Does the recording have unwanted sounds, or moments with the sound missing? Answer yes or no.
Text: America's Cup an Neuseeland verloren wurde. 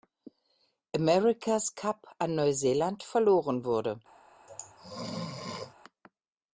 yes